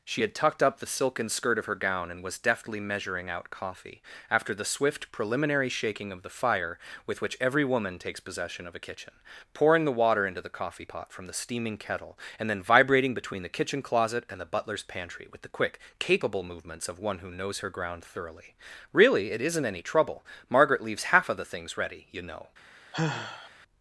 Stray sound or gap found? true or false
true